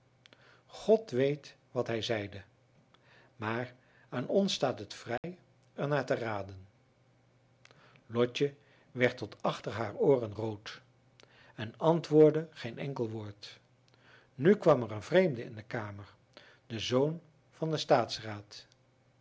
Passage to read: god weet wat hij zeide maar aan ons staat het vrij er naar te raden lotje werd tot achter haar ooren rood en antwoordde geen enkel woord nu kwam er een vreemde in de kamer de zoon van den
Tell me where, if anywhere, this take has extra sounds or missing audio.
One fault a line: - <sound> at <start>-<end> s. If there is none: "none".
- dropout at 5.2-5.2 s